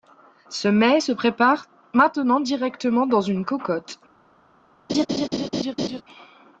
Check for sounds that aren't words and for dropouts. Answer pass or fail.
fail